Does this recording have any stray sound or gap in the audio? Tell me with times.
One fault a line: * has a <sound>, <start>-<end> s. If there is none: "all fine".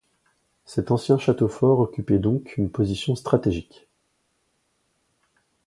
all fine